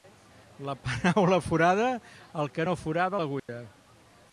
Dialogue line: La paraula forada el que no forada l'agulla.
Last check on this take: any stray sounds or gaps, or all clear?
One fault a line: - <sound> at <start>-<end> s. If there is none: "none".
- dropout at 3.4-3.5 s